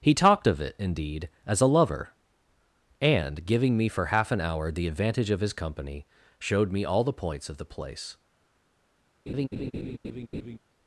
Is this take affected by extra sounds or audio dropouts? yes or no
yes